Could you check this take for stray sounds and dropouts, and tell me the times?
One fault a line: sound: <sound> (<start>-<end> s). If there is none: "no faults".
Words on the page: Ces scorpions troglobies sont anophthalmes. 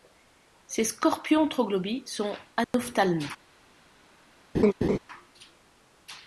sound: dropout (2.6-2.7 s)
sound: laugh (4.5-5.0 s)